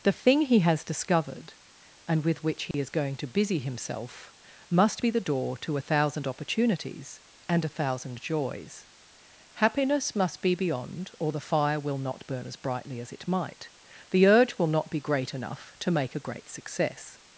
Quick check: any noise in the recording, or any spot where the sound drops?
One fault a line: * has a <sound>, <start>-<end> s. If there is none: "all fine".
* has a dropout, 2.7-2.7 s